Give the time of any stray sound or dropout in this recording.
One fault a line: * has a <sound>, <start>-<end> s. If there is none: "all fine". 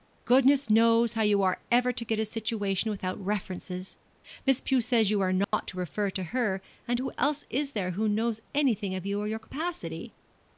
* has a dropout, 5.4-5.5 s